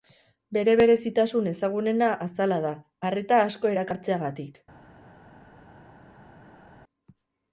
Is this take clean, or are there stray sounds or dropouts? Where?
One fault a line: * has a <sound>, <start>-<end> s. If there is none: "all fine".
all fine